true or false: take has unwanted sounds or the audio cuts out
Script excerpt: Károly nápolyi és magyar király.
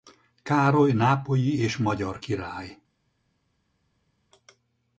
false